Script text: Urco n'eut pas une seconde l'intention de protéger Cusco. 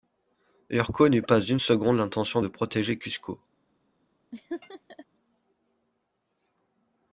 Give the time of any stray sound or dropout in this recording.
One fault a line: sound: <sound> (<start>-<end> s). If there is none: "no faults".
sound: laugh (4.3-5.1 s)